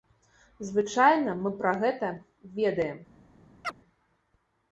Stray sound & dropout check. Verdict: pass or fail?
fail